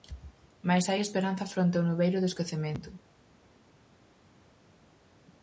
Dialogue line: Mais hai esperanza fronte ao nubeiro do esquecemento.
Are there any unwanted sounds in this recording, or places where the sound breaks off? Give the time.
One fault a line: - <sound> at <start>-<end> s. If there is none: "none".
none